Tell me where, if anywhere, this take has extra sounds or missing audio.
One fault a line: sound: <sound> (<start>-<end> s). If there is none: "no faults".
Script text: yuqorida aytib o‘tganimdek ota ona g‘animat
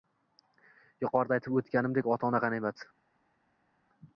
no faults